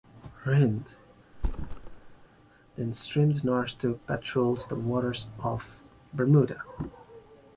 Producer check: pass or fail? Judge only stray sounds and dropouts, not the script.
fail